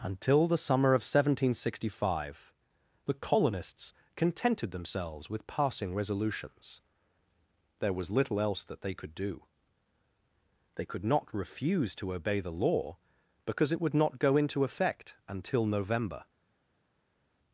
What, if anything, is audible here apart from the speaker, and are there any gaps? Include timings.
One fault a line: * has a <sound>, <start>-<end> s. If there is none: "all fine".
all fine